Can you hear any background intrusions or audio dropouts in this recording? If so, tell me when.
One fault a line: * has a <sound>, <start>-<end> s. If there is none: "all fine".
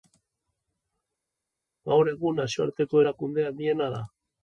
all fine